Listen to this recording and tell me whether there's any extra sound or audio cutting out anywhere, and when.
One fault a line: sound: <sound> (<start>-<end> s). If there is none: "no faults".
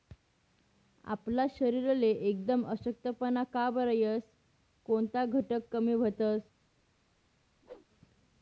sound: whoosh (7.6-7.9 s)